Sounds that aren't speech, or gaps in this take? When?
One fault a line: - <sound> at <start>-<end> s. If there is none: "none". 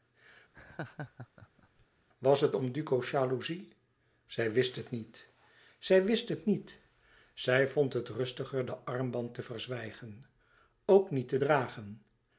- laugh at 0.5-1.9 s